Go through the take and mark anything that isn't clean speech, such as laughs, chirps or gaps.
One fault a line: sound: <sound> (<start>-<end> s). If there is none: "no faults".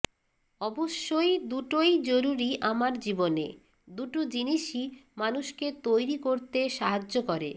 no faults